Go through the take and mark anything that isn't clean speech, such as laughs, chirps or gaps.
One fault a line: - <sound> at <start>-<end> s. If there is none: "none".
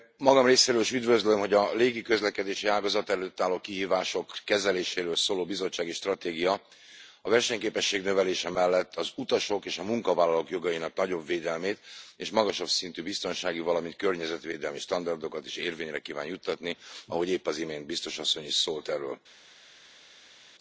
none